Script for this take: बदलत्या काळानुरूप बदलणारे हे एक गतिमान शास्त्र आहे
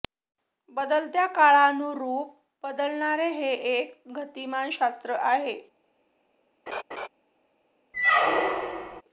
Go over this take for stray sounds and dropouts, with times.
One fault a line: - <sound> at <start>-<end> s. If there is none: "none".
- laugh at 6.7-7.1 s
- squeak at 7.9-9.0 s